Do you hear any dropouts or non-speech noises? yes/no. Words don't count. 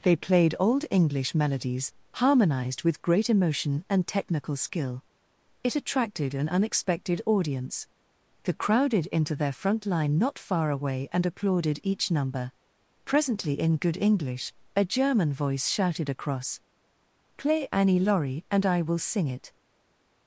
no